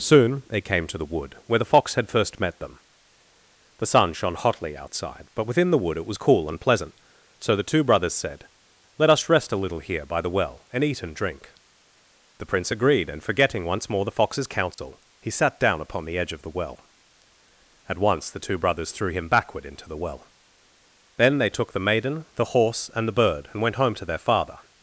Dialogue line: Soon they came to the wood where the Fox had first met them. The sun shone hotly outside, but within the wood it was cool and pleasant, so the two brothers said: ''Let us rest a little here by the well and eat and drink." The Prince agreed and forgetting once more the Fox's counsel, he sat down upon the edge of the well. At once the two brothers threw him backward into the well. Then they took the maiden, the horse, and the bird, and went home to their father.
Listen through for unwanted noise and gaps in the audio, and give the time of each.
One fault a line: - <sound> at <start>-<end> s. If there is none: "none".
- dropout at 14.7-14.8 s